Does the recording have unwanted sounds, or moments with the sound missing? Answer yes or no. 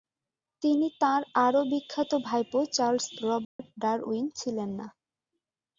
yes